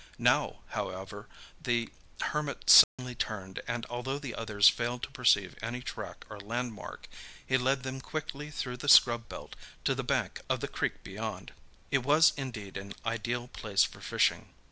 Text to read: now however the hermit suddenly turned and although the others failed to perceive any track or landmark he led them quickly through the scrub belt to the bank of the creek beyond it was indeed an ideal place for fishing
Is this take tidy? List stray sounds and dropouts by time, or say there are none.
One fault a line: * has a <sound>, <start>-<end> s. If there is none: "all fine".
* has a dropout, 2.8-3.0 s